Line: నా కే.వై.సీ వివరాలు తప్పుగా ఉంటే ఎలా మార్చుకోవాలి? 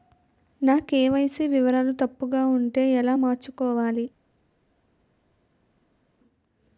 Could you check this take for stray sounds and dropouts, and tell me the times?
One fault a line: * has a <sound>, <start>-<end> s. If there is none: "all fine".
all fine